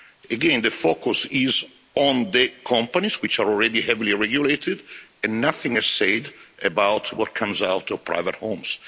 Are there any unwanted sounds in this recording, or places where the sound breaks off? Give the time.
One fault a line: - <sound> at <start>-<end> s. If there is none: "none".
none